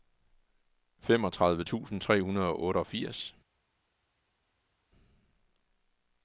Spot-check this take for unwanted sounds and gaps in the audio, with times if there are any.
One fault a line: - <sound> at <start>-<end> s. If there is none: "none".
none